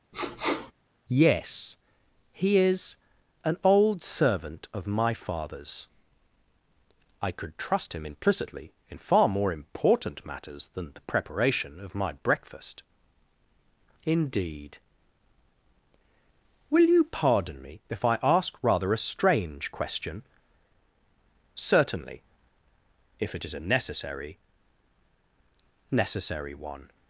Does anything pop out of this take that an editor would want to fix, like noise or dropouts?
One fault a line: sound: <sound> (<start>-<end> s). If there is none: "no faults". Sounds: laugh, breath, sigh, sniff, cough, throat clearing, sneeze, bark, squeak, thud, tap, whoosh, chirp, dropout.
sound: sniff (0.1-0.7 s)